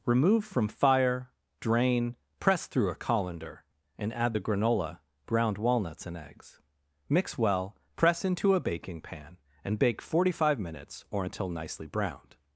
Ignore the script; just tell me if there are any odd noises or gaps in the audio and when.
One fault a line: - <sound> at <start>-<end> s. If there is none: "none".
none